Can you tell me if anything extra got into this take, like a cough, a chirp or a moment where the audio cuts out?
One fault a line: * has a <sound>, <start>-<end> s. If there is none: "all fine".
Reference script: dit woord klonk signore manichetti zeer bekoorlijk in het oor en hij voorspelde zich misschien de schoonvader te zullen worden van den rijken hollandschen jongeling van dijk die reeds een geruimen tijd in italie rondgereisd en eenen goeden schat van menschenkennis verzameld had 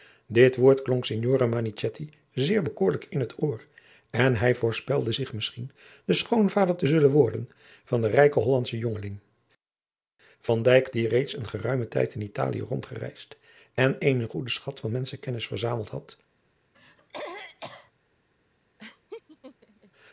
* has a throat clearing, 16.7-17.9 s
* has a laugh, 18.8-19.9 s